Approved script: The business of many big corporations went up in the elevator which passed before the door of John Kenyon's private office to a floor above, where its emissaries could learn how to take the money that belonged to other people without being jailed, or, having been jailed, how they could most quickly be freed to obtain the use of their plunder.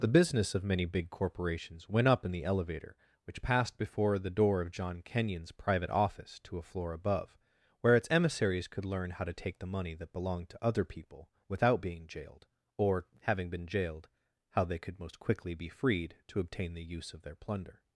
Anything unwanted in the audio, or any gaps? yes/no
no